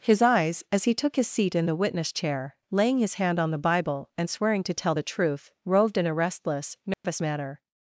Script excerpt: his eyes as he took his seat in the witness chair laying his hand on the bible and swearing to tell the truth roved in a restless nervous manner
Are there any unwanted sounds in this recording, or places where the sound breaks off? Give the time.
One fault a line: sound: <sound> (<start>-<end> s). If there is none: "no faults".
sound: dropout (6.9-7.0 s)